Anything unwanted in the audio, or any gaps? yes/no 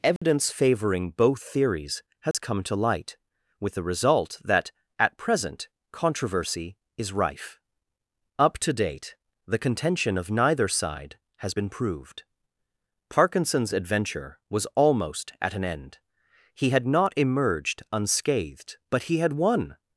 yes